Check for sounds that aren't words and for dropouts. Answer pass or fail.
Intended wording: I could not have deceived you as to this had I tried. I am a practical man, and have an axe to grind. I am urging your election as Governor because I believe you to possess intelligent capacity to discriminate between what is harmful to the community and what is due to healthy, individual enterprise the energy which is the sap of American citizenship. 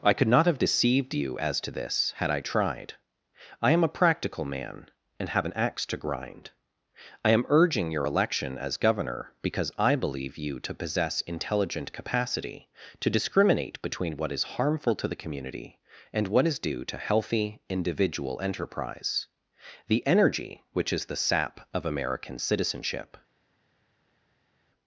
pass